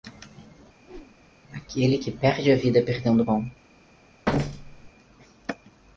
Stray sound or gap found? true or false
true